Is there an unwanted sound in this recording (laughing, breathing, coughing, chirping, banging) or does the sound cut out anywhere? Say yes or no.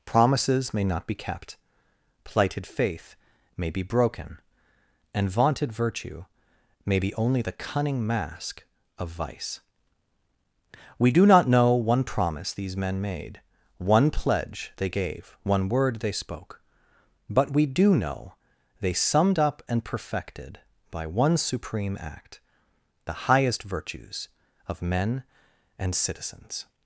no